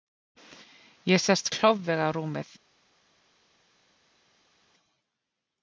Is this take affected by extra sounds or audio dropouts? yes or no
no